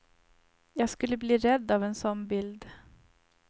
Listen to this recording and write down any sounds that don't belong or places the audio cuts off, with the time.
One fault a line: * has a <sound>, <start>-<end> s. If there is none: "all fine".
all fine